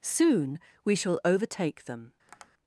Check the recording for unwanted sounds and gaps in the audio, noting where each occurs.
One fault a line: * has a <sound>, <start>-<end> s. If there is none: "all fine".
* has a tap, 2.3-2.5 s